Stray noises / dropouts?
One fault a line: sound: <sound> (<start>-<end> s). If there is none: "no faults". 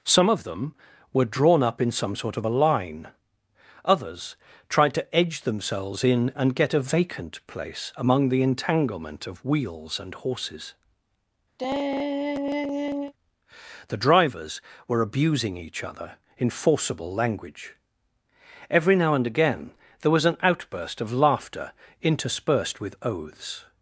sound: sigh (11.6-13.1 s)